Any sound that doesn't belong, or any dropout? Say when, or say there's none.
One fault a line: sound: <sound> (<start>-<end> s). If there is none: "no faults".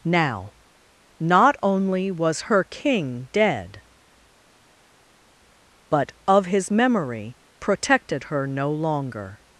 no faults